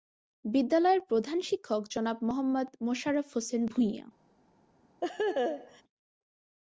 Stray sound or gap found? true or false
true